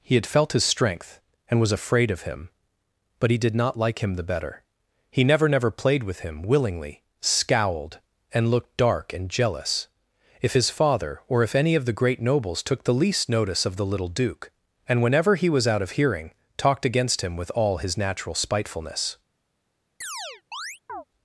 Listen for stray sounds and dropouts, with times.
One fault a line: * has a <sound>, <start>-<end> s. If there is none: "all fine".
* has a chirp, 20.0-21.0 s